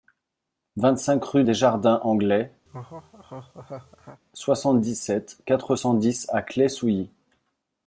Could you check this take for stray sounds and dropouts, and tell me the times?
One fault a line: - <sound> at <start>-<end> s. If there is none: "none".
- laugh at 2.7-4.2 s